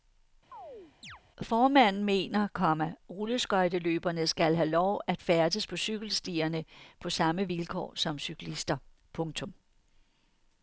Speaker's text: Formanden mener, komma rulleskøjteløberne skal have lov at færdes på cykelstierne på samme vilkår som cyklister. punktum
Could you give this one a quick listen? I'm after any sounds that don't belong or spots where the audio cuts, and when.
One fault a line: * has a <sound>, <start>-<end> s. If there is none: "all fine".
* has a chirp, 0.5-1.2 s